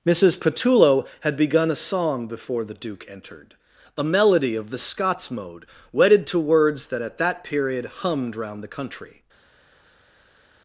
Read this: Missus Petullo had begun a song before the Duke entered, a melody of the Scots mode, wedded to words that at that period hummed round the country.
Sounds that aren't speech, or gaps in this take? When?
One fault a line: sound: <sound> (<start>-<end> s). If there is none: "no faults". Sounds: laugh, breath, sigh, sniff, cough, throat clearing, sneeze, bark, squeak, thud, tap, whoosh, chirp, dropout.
no faults